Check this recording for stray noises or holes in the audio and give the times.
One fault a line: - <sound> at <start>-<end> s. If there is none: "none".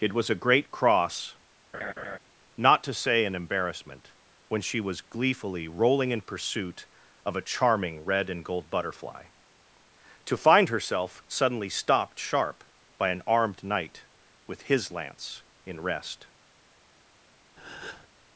- laugh at 1.7-2.2 s
- breath at 17.6-18.1 s